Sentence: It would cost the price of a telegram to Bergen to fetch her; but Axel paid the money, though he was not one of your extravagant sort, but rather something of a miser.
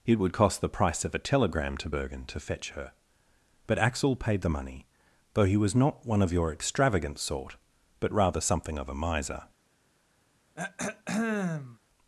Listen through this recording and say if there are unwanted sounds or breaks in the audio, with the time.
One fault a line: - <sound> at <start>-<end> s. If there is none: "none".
- throat clearing at 10.6-11.8 s